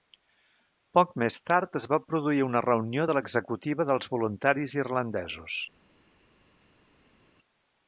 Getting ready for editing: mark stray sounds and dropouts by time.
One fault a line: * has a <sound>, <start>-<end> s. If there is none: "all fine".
all fine